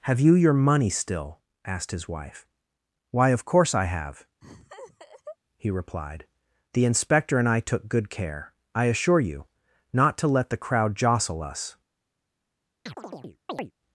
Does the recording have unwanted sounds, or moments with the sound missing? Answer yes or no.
yes